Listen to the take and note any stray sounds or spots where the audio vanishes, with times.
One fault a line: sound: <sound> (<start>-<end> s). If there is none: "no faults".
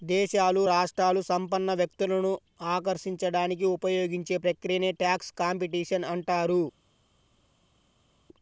no faults